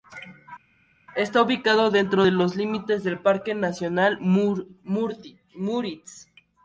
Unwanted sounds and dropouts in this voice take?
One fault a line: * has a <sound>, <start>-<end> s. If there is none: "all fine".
all fine